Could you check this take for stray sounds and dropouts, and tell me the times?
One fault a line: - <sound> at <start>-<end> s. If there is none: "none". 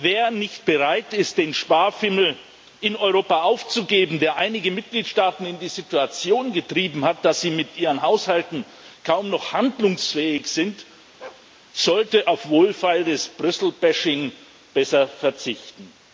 - bark at 11.2-11.5 s